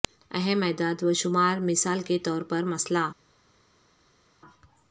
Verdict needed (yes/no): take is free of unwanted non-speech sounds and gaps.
yes